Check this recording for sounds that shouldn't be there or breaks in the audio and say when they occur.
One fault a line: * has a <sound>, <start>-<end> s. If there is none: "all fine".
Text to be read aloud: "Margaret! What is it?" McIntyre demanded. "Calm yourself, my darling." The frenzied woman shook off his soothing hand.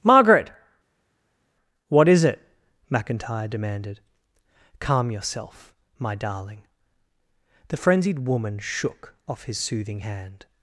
all fine